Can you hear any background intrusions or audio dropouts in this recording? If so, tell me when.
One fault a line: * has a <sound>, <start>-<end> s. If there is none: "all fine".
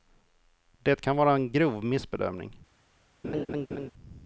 * has a laugh, 3.2-3.9 s